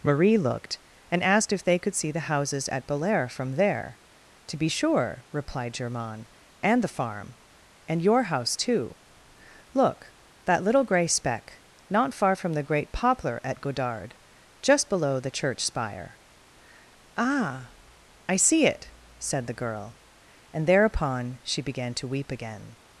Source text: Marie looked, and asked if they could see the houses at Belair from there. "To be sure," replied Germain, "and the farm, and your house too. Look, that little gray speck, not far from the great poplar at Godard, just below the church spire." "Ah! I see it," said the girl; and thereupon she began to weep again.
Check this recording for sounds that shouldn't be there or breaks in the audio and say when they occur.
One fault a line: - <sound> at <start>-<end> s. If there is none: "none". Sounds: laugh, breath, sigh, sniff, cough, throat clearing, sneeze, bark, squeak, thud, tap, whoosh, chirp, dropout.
none